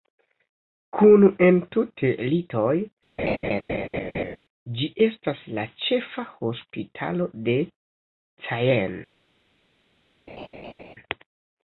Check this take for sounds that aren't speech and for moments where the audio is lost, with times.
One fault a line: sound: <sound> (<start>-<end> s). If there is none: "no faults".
sound: laugh (3.2-4.4 s)
sound: laugh (10.3-11.0 s)